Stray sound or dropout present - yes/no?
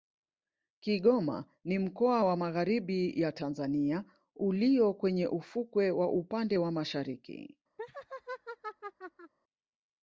yes